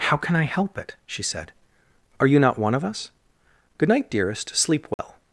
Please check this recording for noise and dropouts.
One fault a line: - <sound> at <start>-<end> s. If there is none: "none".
- dropout at 4.9-5.0 s